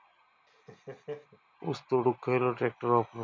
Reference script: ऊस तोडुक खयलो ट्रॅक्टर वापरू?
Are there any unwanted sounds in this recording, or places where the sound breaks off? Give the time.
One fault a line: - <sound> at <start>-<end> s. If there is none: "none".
- laugh at 0.5-1.4 s